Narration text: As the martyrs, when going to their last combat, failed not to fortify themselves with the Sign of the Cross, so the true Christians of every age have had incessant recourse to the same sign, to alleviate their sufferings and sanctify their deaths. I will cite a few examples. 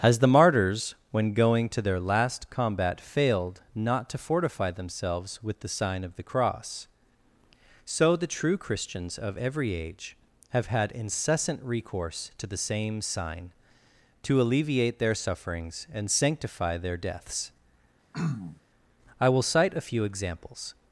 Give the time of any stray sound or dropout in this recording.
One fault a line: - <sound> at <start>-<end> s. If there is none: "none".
- throat clearing at 18.1-18.6 s